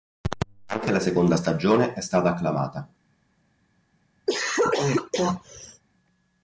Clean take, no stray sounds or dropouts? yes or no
no